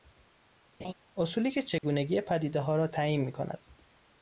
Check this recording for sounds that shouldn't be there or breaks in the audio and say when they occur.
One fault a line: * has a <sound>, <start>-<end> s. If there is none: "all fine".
* has a laugh, 0.8-0.9 s
* has a dropout, 1.8-1.8 s